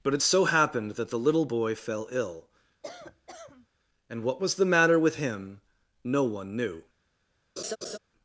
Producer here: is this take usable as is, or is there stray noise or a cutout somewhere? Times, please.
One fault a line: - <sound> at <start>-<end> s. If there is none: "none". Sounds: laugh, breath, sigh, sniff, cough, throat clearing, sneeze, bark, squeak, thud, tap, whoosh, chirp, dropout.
- cough at 2.8-3.7 s
- laugh at 7.6-8.0 s